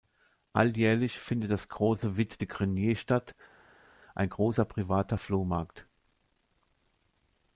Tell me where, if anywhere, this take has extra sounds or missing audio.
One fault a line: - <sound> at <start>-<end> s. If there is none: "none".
none